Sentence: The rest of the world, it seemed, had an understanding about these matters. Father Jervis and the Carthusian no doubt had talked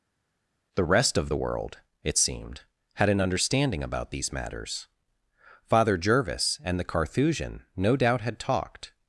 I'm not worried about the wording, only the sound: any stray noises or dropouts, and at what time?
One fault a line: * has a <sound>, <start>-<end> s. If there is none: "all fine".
all fine